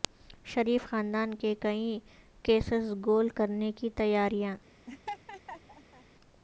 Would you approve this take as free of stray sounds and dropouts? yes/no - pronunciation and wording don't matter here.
no